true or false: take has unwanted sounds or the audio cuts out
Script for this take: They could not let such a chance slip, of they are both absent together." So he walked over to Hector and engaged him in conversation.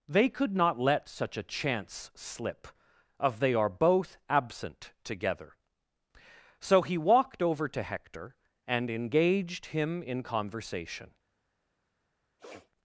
true